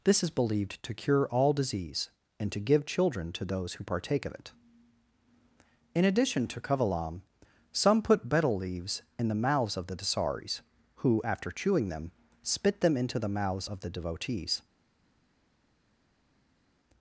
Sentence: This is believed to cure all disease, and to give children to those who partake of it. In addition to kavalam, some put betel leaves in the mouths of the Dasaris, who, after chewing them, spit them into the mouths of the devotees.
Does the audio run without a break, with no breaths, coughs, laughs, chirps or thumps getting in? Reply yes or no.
yes